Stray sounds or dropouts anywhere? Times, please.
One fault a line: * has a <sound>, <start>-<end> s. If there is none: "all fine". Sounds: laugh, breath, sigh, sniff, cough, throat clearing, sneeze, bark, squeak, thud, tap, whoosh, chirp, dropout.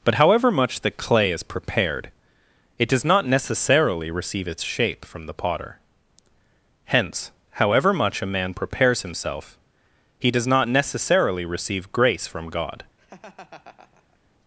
* has a laugh, 13.0-14.2 s